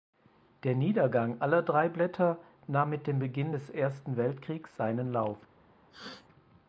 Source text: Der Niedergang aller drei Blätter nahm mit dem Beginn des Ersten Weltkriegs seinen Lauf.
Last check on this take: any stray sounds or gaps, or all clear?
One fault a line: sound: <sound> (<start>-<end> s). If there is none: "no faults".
sound: sneeze (5.9-6.3 s)